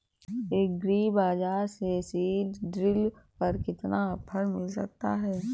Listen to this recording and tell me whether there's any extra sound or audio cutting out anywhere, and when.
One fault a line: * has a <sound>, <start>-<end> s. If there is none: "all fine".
all fine